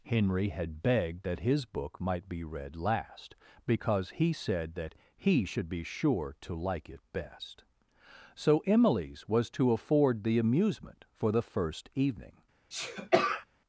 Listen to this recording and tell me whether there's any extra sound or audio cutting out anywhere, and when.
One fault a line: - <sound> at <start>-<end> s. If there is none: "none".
- sneeze at 12.7-13.5 s